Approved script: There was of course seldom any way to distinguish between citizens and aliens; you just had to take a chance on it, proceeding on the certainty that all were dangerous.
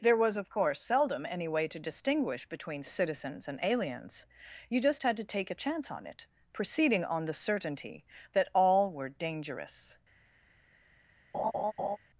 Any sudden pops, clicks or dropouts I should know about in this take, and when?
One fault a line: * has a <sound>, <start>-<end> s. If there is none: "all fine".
* has a laugh, 11.3-12.0 s